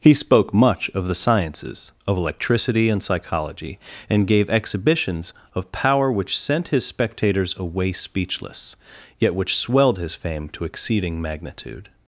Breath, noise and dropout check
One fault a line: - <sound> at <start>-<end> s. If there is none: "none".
none